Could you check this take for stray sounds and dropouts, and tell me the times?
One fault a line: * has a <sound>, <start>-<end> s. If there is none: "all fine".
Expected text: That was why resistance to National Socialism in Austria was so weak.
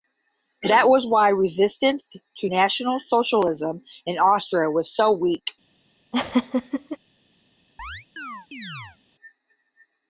* has a laugh, 6.1-7.0 s
* has a chirp, 7.8-9.0 s